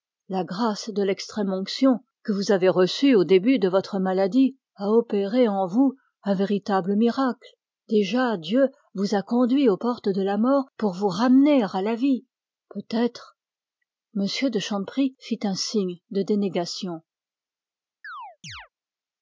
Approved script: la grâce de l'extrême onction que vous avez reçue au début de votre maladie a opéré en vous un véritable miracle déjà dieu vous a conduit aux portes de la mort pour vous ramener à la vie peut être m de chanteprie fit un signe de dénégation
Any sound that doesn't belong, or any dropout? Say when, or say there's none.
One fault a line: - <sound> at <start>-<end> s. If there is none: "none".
- chirp at 18.0-18.7 s